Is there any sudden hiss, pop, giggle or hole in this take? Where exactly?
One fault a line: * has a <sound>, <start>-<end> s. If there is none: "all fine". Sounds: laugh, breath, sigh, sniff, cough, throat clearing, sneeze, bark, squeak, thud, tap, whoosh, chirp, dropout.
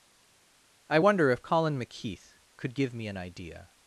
all fine